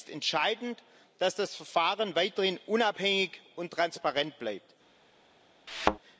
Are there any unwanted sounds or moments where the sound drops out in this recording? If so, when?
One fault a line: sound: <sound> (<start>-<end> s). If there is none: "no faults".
sound: thud (5.7-6.0 s)